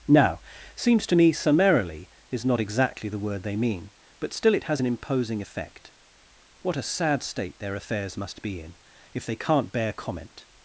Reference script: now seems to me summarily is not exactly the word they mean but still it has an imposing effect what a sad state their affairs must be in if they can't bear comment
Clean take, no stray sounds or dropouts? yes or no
yes